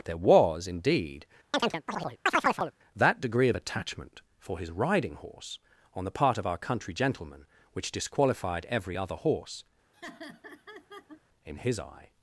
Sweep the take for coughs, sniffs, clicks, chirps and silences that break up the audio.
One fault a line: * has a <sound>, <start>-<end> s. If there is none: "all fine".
* has a chirp, 1.5-2.7 s
* has a laugh, 9.9-11.2 s